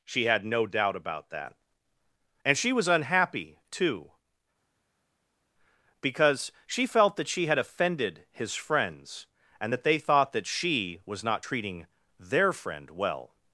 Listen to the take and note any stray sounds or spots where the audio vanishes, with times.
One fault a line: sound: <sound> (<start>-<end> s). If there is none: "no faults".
no faults